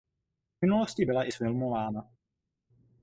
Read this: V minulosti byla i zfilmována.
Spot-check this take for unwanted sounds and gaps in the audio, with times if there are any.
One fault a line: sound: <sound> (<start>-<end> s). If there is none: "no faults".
no faults